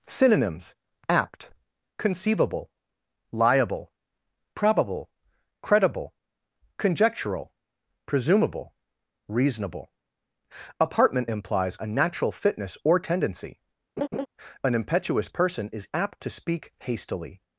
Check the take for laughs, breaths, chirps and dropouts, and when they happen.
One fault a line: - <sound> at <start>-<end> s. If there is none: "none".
- laugh at 14.0-14.3 s